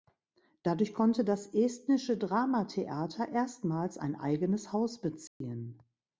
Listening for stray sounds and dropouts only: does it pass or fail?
fail